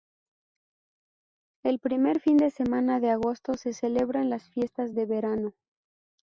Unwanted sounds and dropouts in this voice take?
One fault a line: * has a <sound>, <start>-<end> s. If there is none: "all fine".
all fine